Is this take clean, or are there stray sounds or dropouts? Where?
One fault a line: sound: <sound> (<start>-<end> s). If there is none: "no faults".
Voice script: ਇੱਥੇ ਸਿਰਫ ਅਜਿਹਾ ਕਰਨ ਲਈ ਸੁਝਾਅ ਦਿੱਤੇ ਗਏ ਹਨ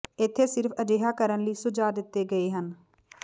no faults